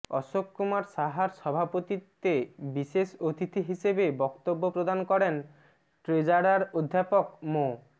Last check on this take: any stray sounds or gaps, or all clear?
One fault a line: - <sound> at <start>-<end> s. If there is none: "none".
none